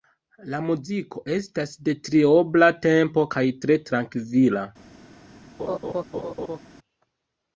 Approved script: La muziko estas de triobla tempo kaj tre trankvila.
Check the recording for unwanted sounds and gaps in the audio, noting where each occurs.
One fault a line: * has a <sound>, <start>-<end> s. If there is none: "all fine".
* has a laugh, 5.6-6.6 s